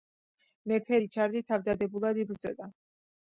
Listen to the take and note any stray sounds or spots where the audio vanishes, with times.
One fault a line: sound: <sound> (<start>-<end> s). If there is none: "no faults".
no faults